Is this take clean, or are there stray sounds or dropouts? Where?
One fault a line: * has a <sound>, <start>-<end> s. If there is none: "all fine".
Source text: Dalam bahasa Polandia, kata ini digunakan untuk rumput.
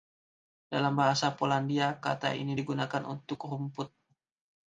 all fine